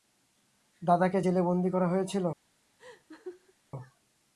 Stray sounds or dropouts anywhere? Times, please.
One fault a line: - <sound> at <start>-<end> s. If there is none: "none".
- laugh at 2.8-3.5 s